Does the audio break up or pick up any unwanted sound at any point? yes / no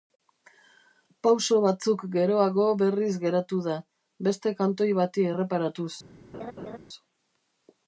yes